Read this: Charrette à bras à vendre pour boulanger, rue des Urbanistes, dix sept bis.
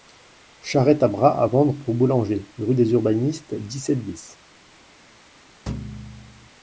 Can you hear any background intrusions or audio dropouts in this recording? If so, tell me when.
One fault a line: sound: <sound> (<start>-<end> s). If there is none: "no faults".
sound: thud (5.7-6.5 s)